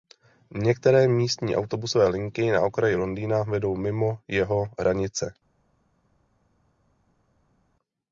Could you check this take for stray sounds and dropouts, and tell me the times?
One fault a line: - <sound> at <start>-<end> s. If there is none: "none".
none